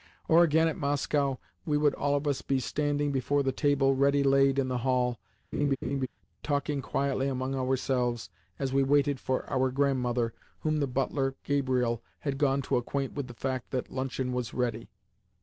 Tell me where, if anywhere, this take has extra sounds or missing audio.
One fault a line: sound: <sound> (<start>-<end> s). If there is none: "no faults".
sound: laugh (5.5-6.1 s)